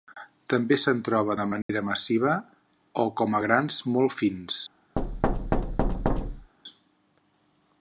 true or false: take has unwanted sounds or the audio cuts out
true